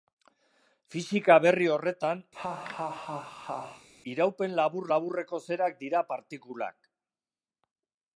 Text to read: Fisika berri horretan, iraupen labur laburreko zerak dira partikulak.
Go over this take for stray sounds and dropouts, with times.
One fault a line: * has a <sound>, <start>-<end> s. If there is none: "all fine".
* has a laugh, 2.3-3.9 s